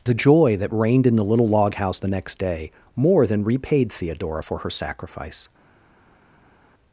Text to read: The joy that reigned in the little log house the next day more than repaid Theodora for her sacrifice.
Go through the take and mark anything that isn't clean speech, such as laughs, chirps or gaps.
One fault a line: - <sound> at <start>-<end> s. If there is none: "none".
none